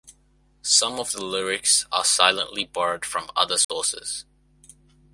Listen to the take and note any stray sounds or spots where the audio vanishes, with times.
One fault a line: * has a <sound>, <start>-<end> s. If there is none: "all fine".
* has a dropout, 3.6-3.7 s